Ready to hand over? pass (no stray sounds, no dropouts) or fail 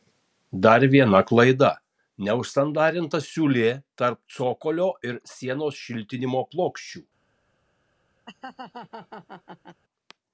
fail